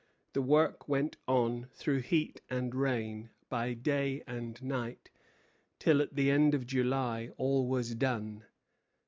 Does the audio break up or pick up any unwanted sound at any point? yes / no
no